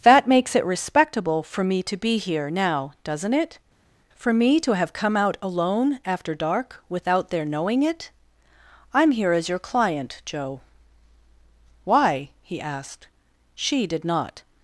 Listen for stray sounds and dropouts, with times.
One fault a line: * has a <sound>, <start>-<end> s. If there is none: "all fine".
all fine